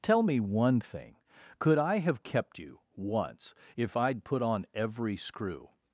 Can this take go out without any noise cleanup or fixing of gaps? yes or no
yes